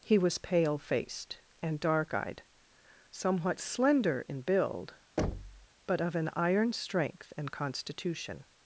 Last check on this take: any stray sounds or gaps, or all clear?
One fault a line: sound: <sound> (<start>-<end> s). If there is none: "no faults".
sound: thud (5.2-5.7 s)